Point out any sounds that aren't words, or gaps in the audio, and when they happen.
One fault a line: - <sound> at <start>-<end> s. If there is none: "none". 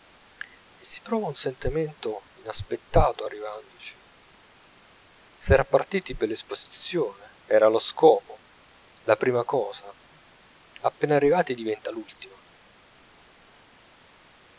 none